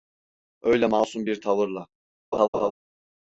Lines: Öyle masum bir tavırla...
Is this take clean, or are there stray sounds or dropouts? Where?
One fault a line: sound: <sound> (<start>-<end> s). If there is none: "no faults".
sound: laugh (2.3-2.7 s)